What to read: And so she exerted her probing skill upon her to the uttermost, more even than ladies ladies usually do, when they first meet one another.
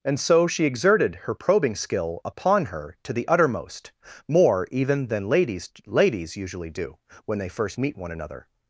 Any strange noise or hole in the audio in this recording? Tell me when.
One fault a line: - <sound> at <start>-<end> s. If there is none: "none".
none